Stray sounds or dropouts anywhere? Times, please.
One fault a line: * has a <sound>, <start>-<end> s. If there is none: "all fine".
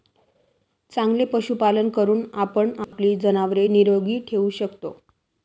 * has a dropout, 2.8-2.9 s